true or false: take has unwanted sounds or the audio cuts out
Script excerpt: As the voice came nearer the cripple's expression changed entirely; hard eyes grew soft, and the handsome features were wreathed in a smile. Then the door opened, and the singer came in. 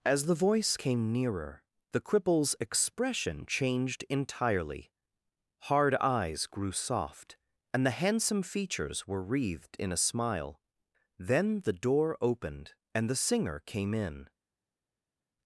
false